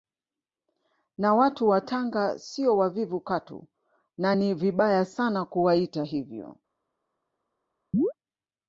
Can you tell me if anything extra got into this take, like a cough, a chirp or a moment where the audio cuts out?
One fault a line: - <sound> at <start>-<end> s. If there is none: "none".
- chirp at 7.9-8.1 s